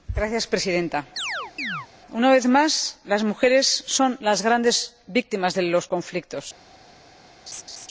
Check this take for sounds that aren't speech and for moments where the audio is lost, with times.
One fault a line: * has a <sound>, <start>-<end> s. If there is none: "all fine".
* has a chirp, 1.2-1.9 s
* has a laugh, 7.5-7.9 s